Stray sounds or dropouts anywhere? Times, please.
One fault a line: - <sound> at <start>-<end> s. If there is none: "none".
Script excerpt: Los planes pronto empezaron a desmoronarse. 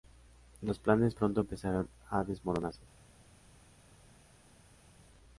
none